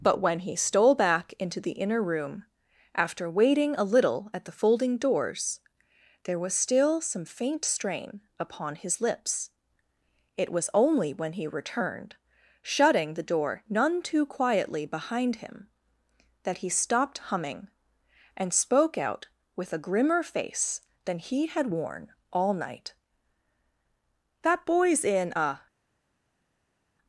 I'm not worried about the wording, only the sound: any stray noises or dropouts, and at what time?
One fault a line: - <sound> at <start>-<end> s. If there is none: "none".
none